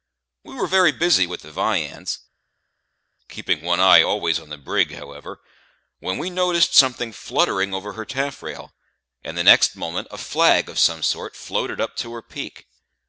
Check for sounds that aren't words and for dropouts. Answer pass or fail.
pass